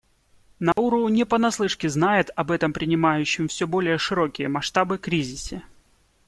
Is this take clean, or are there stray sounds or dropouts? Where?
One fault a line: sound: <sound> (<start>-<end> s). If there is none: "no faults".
sound: dropout (0.7-0.8 s)